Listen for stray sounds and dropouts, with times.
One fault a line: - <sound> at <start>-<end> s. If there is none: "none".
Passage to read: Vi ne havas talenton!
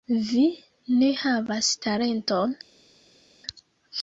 none